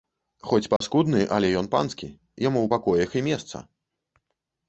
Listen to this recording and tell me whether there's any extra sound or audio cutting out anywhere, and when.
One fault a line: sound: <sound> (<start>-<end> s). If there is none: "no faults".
sound: dropout (0.8-0.8 s)